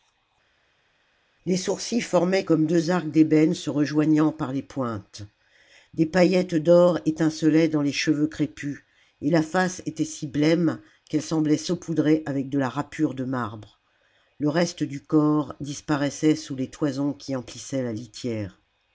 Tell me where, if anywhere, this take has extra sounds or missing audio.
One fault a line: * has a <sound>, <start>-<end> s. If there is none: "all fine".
all fine